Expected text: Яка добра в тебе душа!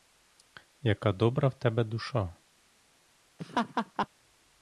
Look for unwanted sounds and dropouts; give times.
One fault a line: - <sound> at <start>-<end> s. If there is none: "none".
- laugh at 3.4-4.1 s